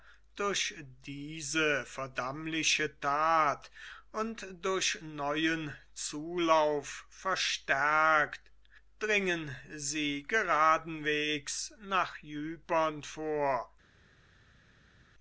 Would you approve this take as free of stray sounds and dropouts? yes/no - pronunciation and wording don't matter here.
yes